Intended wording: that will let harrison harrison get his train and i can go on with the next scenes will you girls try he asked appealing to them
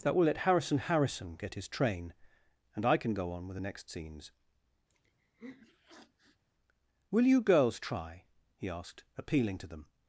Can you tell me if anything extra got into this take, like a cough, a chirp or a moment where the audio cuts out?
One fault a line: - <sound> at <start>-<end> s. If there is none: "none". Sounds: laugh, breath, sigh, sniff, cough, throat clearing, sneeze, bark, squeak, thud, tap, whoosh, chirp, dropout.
- sniff at 4.9-6.4 s